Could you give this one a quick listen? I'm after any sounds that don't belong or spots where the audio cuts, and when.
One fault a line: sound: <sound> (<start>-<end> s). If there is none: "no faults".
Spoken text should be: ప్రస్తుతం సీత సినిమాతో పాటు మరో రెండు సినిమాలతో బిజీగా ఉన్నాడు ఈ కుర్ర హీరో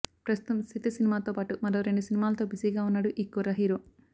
no faults